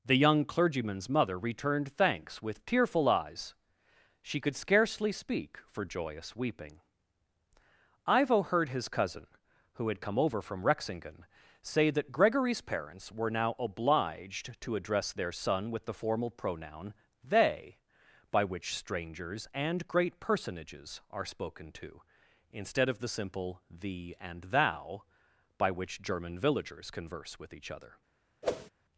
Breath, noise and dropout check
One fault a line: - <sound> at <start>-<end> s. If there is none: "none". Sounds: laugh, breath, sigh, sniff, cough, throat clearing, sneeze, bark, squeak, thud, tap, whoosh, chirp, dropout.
- whoosh at 28.4-28.7 s